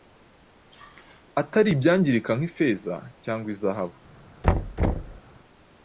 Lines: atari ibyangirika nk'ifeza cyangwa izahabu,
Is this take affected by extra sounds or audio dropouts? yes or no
yes